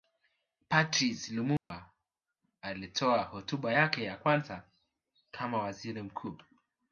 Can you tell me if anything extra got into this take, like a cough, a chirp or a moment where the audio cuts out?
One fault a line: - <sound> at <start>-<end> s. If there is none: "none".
- dropout at 1.6-1.7 s